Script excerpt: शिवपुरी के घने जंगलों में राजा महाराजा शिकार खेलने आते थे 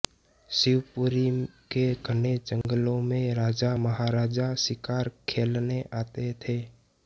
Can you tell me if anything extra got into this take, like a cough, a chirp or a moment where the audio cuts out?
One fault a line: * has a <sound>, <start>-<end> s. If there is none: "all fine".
* has a dropout, 2.6-2.6 s